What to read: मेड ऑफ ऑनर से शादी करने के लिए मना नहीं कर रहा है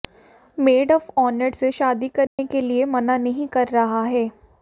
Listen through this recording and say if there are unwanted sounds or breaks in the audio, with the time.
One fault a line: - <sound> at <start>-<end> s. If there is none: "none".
- dropout at 2.3-2.4 s